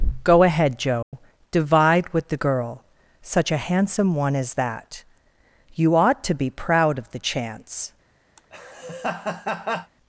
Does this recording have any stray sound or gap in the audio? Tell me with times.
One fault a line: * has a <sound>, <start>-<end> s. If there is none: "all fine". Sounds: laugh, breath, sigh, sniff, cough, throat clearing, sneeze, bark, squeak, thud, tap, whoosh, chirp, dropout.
* has a dropout, 1.0-1.1 s
* has a laugh, 8.4-9.9 s